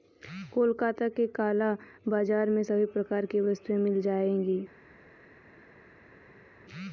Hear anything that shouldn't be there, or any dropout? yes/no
no